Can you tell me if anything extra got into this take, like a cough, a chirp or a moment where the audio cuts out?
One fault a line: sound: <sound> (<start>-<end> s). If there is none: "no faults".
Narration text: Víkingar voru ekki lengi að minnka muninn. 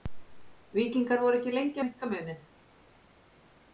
no faults